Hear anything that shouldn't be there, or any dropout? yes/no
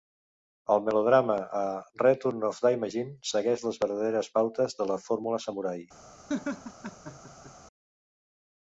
yes